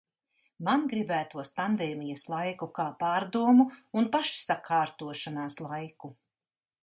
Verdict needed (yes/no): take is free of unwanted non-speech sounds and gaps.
yes